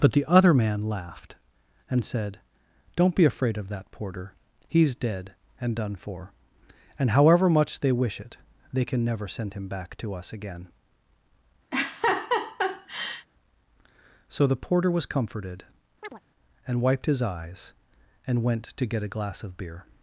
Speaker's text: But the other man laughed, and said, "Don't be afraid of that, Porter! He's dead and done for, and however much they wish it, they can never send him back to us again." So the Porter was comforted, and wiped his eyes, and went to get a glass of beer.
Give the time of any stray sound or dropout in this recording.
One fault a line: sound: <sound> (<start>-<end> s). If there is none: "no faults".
sound: laugh (11.7-13.3 s)
sound: chirp (16.0-16.2 s)